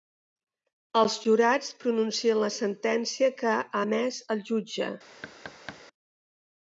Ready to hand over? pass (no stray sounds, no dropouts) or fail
fail